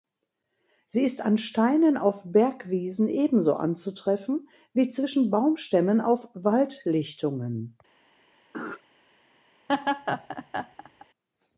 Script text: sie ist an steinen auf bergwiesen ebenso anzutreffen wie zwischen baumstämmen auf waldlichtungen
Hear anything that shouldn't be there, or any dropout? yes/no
yes